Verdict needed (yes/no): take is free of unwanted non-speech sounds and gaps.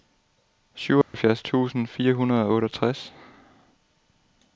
no